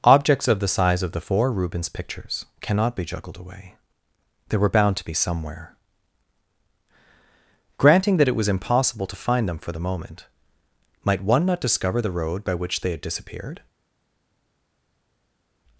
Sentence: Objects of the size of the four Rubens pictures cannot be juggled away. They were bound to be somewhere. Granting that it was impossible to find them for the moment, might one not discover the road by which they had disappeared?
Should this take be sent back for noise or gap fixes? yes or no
no